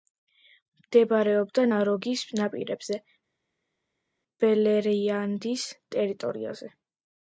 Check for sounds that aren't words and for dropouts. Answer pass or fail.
pass